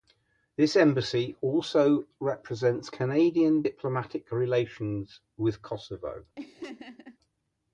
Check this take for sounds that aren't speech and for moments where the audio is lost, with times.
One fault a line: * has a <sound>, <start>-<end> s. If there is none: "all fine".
* has a laugh, 6.4-7.2 s